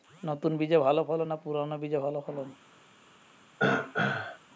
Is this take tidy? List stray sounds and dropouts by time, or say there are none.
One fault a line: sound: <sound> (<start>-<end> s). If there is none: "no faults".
sound: throat clearing (3.6-4.4 s)